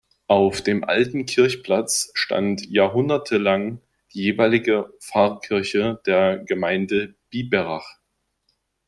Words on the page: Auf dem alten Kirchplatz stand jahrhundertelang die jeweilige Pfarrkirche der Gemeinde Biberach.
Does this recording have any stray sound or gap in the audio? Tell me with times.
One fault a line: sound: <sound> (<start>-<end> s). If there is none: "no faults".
no faults